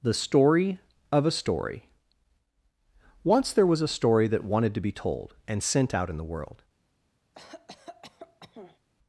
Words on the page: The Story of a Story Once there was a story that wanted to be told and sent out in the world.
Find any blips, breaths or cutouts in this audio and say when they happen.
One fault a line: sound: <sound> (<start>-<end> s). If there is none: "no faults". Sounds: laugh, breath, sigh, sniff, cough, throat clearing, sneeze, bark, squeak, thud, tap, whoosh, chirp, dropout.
sound: cough (7.3-8.8 s)